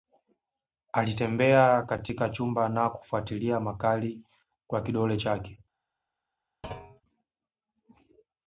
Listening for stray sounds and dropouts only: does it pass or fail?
fail